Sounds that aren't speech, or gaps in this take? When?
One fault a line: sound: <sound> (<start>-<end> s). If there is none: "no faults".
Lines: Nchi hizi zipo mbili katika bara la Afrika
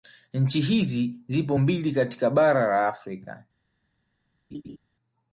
sound: laugh (4.5-4.8 s)